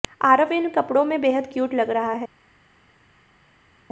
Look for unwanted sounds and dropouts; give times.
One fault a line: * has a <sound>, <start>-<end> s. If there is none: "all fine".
all fine